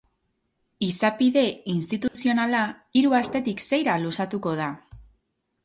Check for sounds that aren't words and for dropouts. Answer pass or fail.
fail